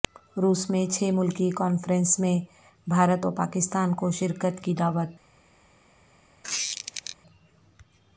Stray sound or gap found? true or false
true